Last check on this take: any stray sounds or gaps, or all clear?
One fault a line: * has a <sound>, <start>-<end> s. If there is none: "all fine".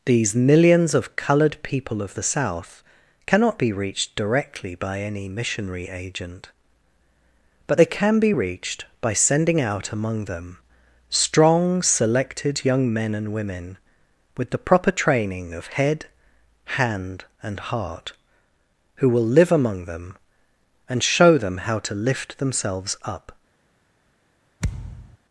* has a thud, 24.6-25.2 s